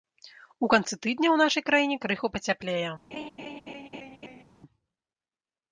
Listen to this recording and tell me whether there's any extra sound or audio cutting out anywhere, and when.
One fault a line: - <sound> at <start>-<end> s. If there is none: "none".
- laugh at 3.1-4.4 s